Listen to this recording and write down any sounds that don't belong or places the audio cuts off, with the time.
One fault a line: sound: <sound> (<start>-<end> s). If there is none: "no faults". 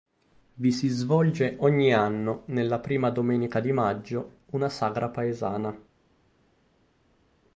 no faults